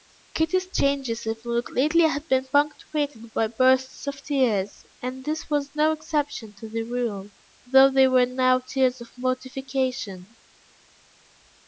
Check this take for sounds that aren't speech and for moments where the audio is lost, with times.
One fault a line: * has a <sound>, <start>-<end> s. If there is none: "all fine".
all fine